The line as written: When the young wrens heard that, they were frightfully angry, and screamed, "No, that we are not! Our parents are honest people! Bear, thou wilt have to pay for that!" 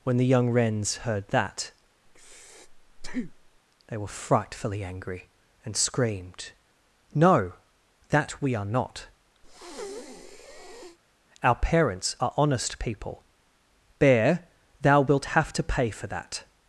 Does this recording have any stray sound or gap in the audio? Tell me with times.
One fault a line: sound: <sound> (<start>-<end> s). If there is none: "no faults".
sound: breath (2.1-3.6 s)
sound: breath (9.4-11.0 s)